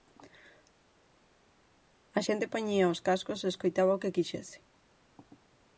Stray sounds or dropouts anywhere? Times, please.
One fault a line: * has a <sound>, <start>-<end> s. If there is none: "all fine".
all fine